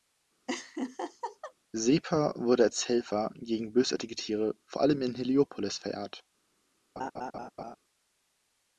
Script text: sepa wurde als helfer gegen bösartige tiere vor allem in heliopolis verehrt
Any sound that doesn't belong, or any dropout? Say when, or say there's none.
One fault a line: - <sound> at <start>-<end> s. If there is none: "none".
- laugh at 0.5-1.5 s
- laugh at 7.0-7.8 s